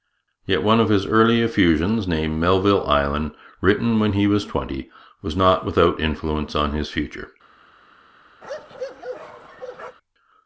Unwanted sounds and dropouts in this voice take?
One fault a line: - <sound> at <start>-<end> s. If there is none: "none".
- bark at 8.4-10.0 s